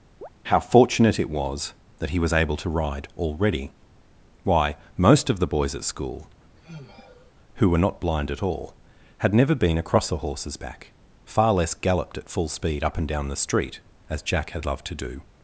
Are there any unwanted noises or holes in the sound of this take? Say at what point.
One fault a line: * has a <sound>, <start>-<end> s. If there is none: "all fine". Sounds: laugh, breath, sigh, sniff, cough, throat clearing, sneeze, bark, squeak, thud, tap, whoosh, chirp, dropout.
* has a chirp, 0.2-0.3 s
* has a sigh, 6.6-7.3 s